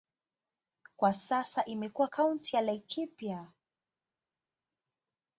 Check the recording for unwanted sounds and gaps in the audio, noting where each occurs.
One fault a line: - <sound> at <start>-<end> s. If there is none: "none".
none